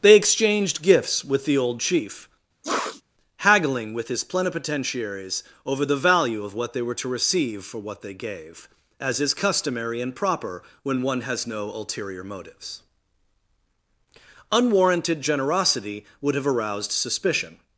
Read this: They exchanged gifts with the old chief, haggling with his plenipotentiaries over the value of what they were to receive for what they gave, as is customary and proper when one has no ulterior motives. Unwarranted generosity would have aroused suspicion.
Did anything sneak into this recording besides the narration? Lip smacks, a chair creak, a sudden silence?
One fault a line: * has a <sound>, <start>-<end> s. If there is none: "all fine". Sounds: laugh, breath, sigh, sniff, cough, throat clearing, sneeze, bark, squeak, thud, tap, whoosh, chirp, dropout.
* has a sniff, 2.6-3.0 s